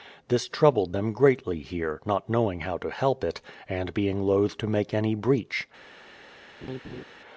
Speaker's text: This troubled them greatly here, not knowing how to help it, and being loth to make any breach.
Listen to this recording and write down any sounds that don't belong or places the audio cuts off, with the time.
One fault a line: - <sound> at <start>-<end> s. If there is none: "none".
- laugh at 6.6-7.0 s